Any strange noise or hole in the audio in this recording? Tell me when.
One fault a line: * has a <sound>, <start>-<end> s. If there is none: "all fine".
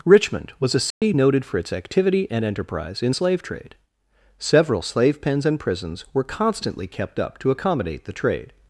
* has a dropout, 0.9-1.0 s